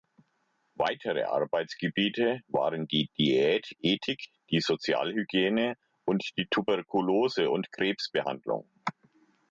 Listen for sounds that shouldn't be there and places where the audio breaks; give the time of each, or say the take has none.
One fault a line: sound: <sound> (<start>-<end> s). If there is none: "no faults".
no faults